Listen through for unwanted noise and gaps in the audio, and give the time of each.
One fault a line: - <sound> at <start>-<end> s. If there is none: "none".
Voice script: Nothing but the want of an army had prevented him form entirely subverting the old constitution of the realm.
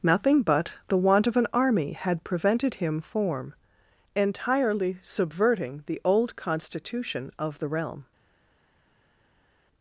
none